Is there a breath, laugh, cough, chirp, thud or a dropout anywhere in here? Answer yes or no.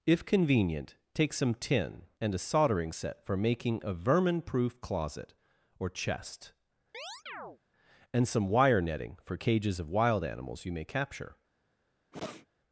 yes